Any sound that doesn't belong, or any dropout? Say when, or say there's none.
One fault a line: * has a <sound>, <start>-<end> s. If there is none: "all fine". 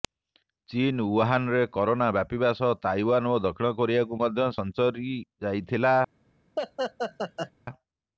* has a laugh, 6.6-7.5 s